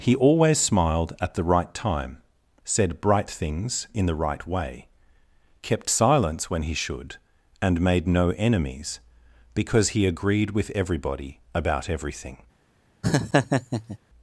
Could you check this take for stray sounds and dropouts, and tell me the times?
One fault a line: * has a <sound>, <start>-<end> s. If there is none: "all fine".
* has a laugh, 13.0-14.0 s